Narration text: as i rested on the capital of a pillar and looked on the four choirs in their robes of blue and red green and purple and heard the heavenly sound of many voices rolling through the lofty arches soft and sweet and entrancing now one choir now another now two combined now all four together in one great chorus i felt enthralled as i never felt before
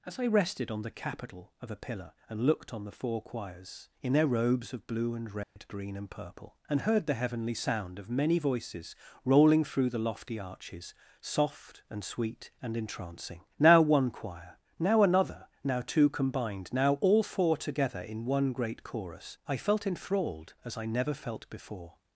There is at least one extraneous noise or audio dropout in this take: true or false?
true